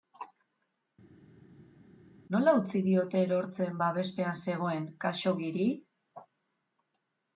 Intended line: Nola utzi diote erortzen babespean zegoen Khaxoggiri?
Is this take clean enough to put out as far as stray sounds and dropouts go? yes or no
yes